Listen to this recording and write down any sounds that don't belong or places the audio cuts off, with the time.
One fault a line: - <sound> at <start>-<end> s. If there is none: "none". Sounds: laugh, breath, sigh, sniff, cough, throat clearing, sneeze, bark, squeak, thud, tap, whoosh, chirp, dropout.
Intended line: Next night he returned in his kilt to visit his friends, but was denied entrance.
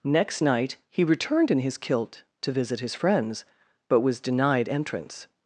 none